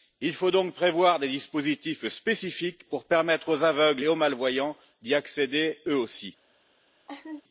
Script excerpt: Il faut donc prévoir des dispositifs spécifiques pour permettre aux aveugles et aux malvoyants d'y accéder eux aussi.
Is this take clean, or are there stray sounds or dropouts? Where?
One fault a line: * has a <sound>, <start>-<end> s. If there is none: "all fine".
* has a laugh, 7.1-7.4 s